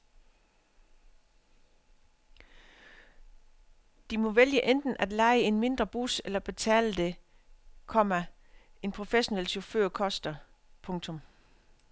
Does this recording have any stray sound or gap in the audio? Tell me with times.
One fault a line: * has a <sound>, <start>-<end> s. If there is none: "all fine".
all fine